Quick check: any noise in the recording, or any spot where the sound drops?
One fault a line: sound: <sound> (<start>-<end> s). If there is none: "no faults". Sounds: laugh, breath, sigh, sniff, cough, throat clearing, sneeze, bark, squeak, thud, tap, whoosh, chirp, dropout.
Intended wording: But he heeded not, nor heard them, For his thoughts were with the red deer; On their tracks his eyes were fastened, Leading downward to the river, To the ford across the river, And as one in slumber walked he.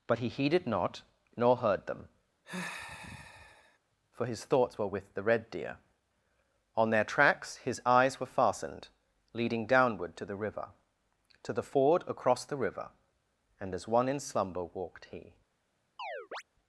sound: sigh (2.4-3.8 s)
sound: chirp (16.0-16.4 s)